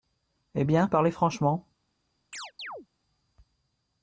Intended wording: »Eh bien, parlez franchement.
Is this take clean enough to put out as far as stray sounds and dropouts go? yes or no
no